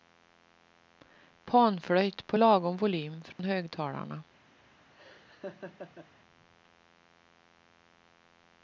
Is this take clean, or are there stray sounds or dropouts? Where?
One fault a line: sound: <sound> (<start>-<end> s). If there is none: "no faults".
sound: dropout (3.3-3.4 s)
sound: laugh (4.9-6.1 s)